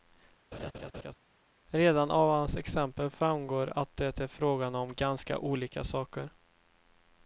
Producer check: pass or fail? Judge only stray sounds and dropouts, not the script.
fail